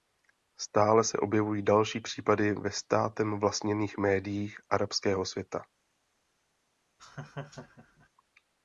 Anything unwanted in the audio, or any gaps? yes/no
yes